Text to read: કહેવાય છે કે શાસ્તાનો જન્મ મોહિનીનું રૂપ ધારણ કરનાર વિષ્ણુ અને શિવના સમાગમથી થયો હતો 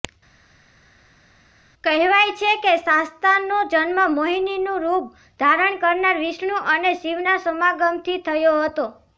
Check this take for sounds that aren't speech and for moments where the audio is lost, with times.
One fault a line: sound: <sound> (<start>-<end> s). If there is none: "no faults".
no faults